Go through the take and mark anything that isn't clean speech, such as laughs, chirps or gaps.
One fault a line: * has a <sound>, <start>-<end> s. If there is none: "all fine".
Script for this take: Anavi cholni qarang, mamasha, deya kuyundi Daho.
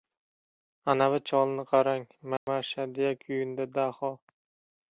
* has a dropout, 2.4-2.5 s